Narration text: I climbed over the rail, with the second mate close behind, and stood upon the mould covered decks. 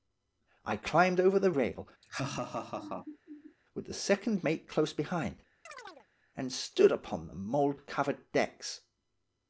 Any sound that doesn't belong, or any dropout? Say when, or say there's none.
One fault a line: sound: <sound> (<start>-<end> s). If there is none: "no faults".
sound: laugh (2.0-3.6 s)
sound: chirp (5.7-6.1 s)